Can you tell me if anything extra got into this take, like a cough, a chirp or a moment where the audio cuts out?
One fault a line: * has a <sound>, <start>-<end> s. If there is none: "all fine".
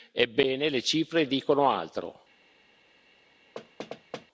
* has a thud, 3.6-4.3 s